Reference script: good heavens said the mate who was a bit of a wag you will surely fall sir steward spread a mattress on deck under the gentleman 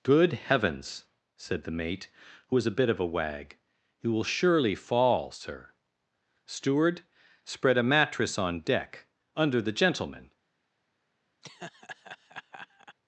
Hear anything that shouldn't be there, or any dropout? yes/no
yes